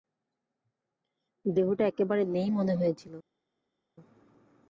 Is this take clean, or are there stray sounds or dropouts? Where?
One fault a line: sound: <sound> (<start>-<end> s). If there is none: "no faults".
no faults